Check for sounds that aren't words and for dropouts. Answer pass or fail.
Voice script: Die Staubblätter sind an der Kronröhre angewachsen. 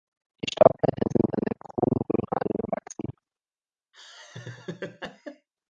fail